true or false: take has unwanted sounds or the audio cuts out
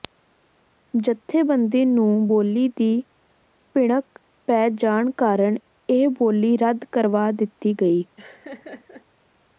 true